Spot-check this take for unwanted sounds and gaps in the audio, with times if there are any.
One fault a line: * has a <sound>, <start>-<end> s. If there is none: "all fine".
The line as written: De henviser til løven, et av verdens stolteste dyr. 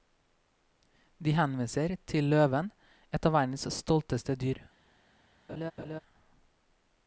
* has a laugh, 5.5-6.0 s